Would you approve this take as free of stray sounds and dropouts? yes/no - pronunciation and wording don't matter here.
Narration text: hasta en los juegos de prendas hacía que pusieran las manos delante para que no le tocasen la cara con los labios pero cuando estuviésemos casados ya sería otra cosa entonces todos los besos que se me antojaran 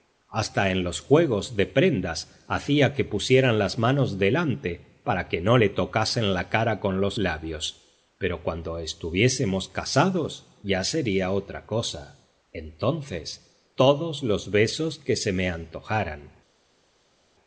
yes